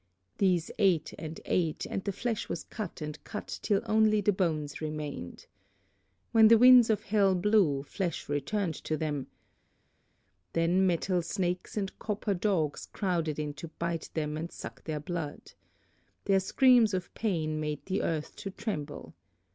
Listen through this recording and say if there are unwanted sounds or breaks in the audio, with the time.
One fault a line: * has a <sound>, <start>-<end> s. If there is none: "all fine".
all fine